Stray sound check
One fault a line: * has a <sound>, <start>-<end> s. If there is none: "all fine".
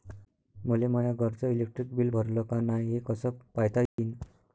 * has a dropout, 3.9-4.0 s